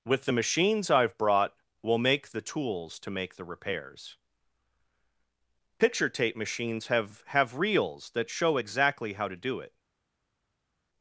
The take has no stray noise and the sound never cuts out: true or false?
true